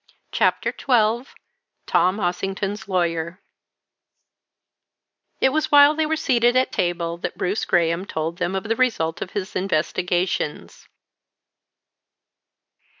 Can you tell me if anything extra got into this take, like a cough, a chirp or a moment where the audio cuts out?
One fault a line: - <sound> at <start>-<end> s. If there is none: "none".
none